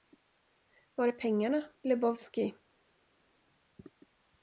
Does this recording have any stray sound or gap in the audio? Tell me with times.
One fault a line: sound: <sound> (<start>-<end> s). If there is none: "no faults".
no faults